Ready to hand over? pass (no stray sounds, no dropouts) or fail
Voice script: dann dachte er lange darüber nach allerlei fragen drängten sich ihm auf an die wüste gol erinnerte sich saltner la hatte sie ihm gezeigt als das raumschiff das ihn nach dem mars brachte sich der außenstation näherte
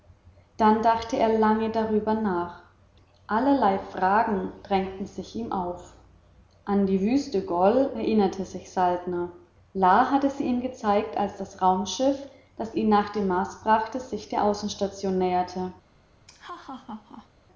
fail